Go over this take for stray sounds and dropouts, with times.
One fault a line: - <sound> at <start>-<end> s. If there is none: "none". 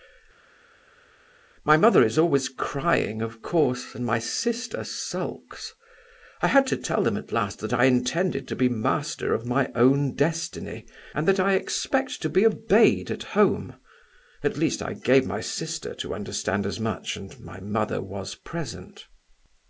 none